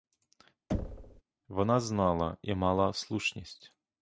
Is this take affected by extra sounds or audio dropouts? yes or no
yes